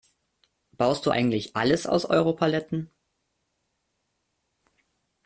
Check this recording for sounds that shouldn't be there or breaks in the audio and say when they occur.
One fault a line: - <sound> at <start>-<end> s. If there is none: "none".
none